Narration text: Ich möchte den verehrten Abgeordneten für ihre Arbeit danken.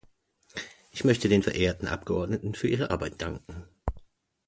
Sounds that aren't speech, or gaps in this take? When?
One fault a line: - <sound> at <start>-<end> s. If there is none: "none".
none